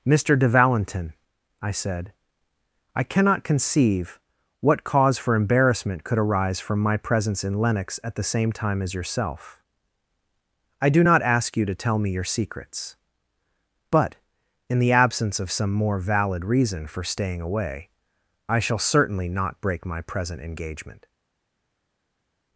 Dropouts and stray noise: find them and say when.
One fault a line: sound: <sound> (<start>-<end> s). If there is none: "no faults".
no faults